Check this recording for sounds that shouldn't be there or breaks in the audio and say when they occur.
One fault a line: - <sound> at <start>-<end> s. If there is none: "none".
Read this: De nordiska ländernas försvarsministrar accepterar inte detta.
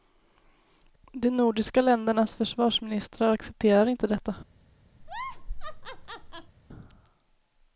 - laugh at 5.0-6.5 s